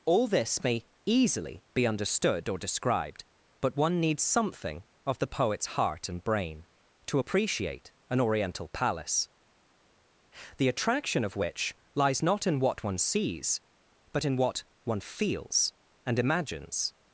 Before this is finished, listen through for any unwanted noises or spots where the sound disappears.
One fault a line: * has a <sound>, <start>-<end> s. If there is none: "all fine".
all fine